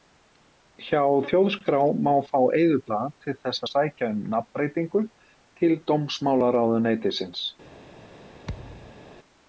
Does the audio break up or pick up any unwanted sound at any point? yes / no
yes